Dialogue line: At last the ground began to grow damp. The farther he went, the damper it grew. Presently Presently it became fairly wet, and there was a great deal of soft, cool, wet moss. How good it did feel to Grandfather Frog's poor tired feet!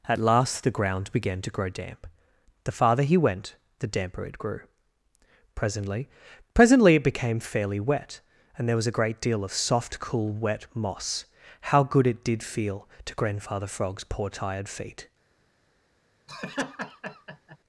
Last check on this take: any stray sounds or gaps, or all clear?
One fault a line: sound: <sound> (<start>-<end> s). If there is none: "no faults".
sound: laugh (16.3-17.6 s)